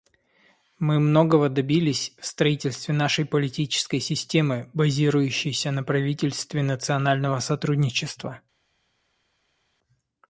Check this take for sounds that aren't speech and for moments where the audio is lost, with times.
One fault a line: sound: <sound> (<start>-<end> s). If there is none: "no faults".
no faults